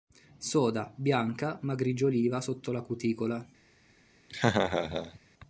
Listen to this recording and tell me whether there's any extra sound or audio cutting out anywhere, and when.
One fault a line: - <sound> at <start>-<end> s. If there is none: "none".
- laugh at 4.3-5.2 s